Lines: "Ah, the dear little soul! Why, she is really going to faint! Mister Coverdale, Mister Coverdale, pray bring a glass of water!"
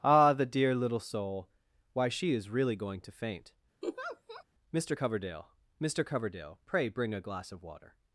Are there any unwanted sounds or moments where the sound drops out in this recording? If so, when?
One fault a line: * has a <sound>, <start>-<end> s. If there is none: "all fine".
* has a laugh, 3.8-4.4 s